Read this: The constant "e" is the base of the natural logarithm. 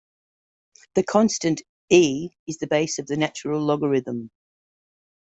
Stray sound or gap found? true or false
false